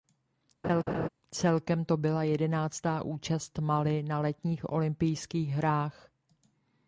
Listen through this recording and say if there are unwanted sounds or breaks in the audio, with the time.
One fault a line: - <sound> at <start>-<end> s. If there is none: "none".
- laugh at 0.6-1.1 s